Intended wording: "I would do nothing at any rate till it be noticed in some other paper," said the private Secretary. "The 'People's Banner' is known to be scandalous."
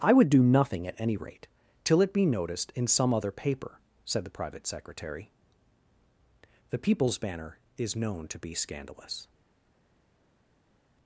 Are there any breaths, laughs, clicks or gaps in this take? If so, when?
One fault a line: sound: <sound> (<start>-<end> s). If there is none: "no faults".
no faults